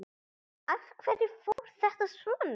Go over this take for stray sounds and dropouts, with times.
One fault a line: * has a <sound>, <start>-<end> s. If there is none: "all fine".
* has a dropout, 1.5-1.6 s